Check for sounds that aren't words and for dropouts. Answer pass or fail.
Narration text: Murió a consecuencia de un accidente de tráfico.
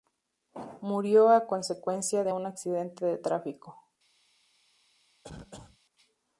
fail